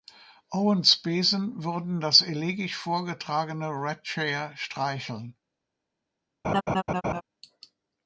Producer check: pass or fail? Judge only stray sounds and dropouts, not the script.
fail